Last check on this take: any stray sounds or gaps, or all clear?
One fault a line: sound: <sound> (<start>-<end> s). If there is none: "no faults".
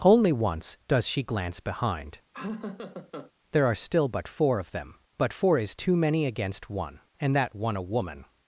sound: laugh (2.3-3.3 s)